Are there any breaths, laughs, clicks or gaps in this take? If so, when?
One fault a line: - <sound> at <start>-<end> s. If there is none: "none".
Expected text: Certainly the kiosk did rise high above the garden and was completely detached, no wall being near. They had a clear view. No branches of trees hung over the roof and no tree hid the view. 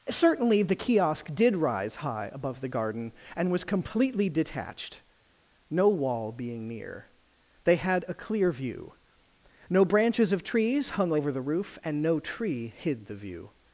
none